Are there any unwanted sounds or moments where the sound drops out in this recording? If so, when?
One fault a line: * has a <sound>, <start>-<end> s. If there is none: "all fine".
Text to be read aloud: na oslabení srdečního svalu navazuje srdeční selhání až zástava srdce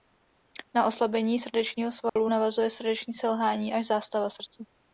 * has a dropout, 2.1-2.2 s